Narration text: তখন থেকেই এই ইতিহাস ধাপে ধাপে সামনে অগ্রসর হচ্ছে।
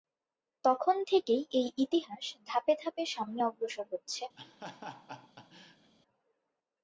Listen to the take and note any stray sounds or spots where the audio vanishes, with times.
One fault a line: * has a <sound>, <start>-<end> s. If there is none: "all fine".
* has a laugh, 4.4-5.9 s